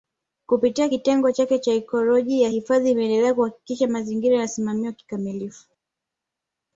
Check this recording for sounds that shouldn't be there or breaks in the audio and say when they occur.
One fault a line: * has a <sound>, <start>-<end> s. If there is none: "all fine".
all fine